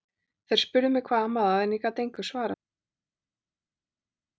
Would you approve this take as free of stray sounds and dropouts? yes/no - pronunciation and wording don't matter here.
yes